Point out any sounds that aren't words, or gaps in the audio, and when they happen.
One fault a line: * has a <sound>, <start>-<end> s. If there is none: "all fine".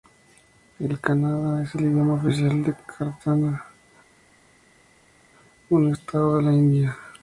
all fine